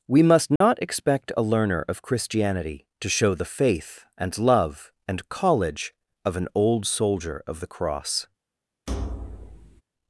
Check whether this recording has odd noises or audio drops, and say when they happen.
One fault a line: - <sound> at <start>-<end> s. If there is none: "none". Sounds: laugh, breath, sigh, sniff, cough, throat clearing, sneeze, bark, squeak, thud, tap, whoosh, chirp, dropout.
- dropout at 0.6-0.6 s
- thud at 8.9-9.8 s